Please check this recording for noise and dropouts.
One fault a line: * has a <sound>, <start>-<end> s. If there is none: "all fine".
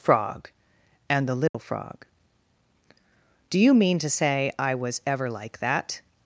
* has a dropout, 1.5-1.5 s